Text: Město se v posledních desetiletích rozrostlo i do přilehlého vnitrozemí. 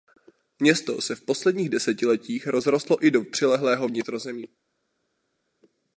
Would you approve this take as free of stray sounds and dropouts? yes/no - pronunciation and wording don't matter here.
yes